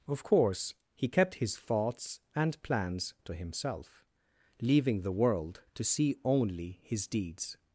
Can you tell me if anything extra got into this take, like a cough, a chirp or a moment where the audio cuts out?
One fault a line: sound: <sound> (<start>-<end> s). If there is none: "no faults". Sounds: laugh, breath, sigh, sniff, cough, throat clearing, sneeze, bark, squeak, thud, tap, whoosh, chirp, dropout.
no faults